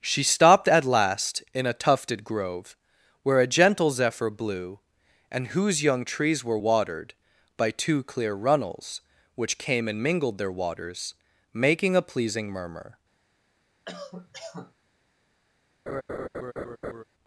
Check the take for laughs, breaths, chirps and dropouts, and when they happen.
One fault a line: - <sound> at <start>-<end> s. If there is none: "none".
- cough at 13.9-14.7 s
- laugh at 15.9-17.0 s